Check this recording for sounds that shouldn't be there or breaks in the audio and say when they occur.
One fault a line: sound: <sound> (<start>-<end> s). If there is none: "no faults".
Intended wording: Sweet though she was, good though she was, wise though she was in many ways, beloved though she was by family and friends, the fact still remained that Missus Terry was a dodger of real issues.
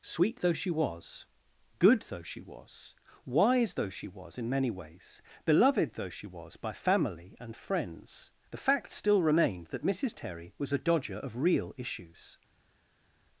no faults